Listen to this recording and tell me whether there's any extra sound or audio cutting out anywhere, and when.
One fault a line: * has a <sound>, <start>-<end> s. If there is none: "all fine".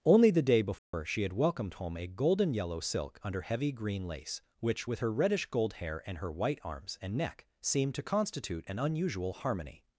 * has a dropout, 0.8-0.9 s